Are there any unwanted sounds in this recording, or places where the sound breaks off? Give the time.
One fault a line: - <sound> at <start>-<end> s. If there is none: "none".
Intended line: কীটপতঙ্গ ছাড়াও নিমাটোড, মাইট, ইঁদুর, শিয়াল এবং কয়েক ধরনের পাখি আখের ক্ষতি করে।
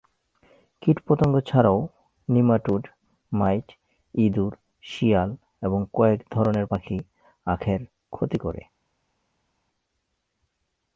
none